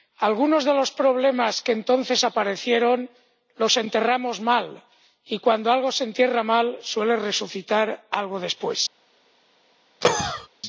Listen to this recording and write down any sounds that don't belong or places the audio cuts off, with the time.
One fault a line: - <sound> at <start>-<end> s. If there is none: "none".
- cough at 10.0-10.5 s